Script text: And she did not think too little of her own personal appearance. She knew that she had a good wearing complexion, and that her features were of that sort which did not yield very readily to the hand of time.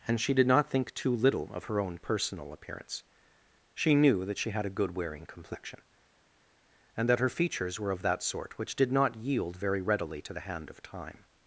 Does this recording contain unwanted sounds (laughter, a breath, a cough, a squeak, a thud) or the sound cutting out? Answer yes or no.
no